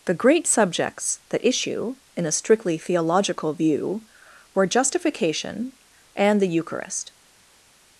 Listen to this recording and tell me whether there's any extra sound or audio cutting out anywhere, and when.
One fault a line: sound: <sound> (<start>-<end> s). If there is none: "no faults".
no faults